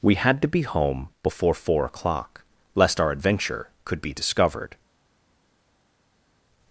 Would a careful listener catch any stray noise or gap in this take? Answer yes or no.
no